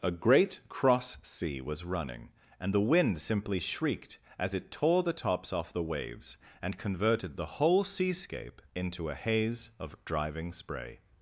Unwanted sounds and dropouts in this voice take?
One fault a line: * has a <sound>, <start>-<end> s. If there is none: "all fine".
all fine